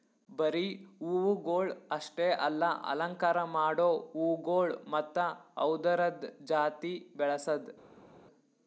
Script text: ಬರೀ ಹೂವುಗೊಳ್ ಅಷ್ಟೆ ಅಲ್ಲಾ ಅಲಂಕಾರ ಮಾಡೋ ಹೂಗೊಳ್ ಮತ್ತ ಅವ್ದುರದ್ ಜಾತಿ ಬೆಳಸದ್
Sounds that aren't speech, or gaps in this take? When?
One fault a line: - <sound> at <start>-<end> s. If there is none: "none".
none